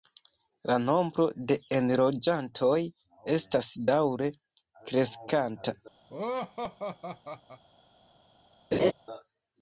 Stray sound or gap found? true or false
true